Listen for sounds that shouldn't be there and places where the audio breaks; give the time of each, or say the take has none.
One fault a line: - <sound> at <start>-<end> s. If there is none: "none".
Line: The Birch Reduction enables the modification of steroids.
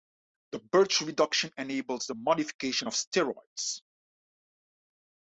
none